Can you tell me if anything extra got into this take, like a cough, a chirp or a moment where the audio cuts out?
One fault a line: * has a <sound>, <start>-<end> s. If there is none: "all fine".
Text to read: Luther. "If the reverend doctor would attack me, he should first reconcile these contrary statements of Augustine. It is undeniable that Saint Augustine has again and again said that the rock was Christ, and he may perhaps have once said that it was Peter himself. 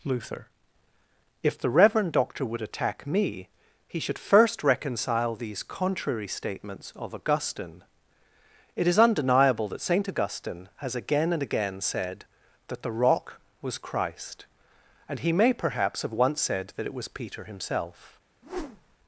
* has a whoosh, 18.4-19.0 s